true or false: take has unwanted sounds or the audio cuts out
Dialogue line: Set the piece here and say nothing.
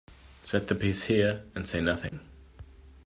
true